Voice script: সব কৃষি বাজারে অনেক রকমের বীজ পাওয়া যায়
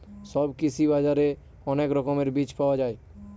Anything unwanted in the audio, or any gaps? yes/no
no